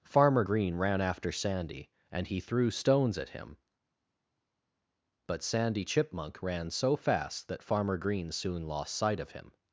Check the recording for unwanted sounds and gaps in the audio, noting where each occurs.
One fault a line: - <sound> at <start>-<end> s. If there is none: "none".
none